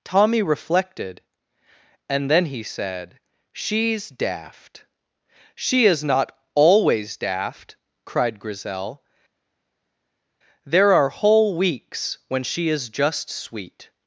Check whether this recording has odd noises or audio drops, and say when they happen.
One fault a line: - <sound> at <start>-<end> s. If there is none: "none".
none